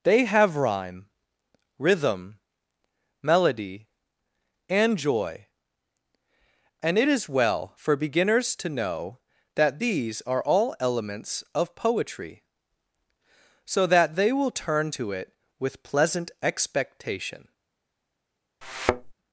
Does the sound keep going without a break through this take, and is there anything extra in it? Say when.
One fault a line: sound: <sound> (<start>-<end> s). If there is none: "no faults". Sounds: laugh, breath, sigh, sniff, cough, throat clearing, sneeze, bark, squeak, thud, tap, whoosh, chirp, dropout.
sound: thud (18.6-19.1 s)